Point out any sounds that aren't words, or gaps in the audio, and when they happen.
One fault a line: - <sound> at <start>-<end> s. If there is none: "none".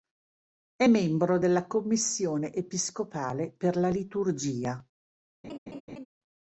- laugh at 5.4-6.1 s